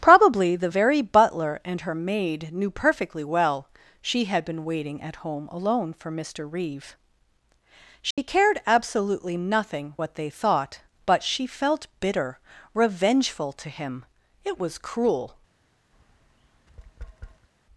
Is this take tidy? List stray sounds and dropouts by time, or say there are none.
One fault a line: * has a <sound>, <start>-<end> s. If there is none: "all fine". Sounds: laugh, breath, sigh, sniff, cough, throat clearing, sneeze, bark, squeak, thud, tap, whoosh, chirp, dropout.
* has a dropout, 8.1-8.2 s
* has a tap, 15.9-17.5 s